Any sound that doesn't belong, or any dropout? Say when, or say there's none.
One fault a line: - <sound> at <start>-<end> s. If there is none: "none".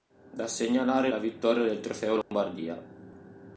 - dropout at 2.2-2.3 s